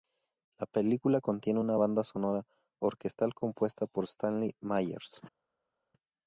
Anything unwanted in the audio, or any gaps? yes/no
no